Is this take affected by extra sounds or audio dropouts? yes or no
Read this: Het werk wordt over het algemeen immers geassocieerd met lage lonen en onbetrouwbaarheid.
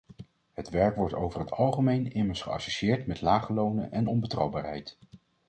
no